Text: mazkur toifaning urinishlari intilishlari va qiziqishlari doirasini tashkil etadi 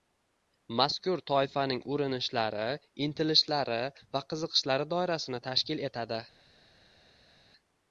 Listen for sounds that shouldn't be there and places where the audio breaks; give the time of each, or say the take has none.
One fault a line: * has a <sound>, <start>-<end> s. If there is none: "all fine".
all fine